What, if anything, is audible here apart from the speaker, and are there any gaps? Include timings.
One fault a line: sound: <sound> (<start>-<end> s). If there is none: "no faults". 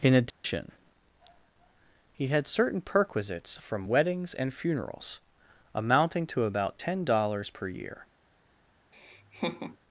sound: dropout (0.3-0.4 s)
sound: laugh (8.9-9.8 s)